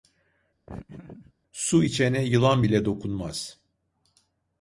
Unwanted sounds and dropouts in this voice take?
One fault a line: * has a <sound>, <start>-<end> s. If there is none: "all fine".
* has a laugh, 0.7-1.3 s